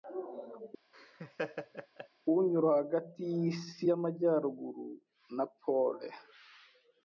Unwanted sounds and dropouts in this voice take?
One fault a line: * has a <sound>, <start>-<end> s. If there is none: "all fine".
* has a laugh, 0.9-2.1 s